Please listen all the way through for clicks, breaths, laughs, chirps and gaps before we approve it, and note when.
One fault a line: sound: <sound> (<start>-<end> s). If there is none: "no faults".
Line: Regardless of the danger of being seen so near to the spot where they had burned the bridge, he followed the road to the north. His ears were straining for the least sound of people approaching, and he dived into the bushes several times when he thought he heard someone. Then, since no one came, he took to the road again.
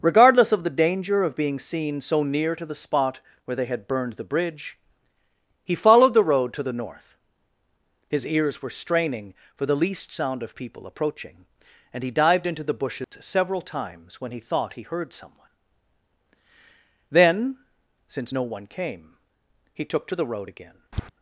sound: dropout (13.0-13.1 s)
sound: tap (20.9-21.1 s)